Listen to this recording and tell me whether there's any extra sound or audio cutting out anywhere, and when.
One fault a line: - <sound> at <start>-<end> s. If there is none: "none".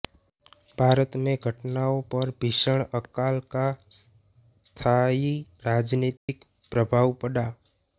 - dropout at 6.2-6.3 s